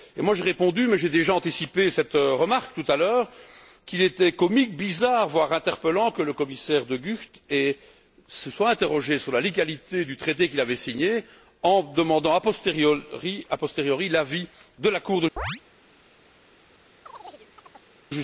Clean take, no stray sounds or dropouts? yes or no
no